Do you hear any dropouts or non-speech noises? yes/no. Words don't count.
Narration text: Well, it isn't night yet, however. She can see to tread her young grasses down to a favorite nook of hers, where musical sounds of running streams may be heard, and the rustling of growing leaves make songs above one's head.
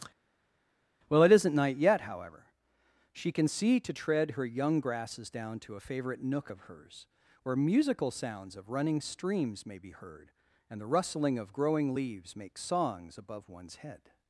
no